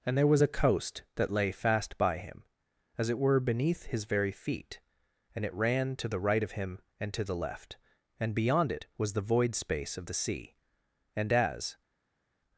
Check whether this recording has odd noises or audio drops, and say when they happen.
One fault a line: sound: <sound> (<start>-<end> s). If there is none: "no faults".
no faults